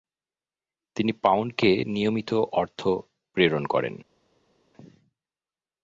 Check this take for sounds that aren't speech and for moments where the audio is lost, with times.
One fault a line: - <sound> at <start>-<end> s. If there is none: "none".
none